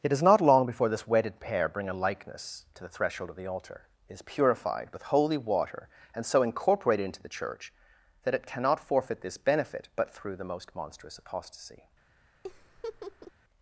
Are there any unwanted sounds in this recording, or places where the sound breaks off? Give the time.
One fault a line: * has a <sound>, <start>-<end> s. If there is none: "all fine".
* has a laugh, 12.4-13.3 s